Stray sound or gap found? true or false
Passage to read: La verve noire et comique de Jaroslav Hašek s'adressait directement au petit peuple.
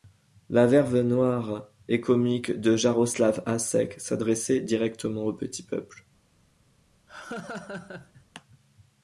true